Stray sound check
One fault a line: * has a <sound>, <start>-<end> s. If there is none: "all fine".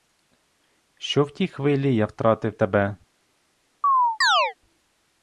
* has a chirp, 3.8-4.5 s